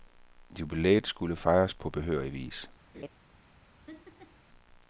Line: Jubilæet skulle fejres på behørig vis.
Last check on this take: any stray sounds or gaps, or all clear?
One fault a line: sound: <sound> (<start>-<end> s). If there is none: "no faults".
sound: laugh (2.9-3.1 s)
sound: laugh (3.9-4.4 s)